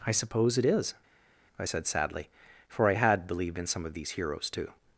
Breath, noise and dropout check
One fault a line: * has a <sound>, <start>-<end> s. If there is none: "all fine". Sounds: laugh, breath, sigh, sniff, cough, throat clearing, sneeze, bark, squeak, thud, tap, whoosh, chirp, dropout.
all fine